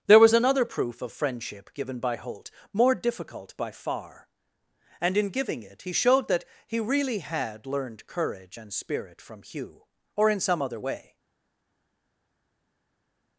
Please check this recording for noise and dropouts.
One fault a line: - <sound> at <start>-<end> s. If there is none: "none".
none